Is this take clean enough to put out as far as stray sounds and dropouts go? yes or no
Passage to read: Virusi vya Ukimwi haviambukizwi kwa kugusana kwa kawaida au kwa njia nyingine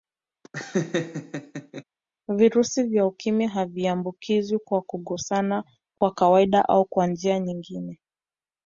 no